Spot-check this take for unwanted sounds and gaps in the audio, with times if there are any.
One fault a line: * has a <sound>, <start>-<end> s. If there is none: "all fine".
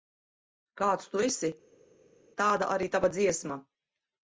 all fine